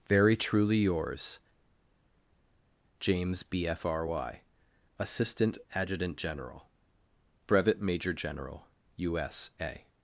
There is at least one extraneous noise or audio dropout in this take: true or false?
false